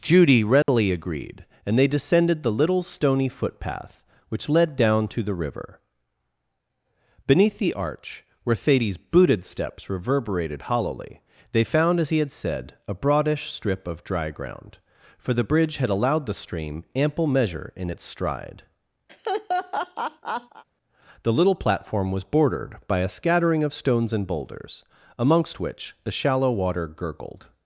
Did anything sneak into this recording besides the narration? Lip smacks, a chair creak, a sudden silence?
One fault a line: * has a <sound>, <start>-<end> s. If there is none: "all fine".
* has a dropout, 0.6-0.7 s
* has a laugh, 19.1-20.6 s